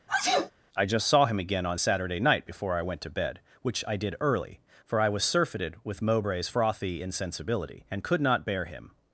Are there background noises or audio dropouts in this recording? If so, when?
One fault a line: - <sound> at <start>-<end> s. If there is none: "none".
- sneeze at 0.1-0.5 s